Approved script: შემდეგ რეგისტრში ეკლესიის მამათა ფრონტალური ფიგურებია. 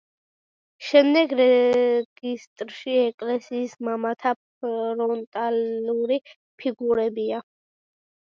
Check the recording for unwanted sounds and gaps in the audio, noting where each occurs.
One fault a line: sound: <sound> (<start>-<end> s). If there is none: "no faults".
no faults